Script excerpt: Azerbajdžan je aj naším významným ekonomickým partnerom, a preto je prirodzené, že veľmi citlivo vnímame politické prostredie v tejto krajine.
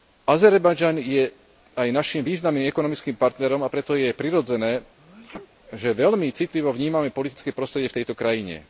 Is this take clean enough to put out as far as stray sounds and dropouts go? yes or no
no